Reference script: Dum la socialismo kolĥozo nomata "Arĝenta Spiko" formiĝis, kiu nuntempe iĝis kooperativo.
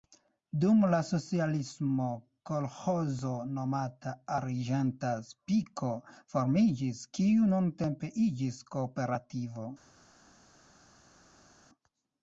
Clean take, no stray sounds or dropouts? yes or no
yes